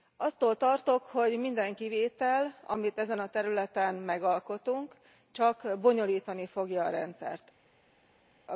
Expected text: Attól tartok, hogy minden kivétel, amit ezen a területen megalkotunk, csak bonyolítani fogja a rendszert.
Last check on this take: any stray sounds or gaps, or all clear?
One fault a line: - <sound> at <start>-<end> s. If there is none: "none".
none